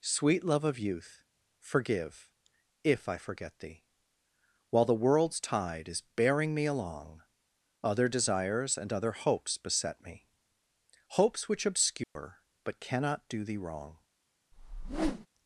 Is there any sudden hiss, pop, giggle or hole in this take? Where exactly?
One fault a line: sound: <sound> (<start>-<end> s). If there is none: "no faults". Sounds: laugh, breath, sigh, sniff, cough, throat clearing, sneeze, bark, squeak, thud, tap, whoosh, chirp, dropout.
sound: dropout (12.0-12.2 s)
sound: whoosh (14.5-15.3 s)